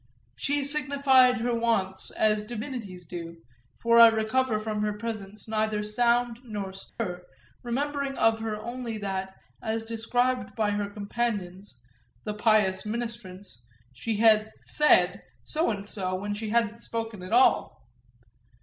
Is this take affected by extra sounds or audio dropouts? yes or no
yes